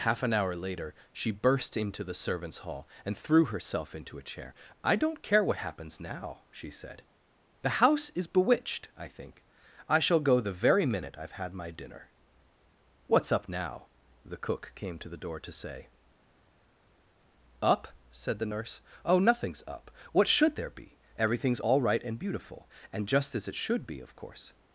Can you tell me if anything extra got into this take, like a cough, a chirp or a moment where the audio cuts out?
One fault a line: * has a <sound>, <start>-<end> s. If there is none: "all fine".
all fine